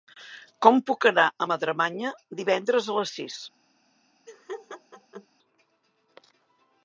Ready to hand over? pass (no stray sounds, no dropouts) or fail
fail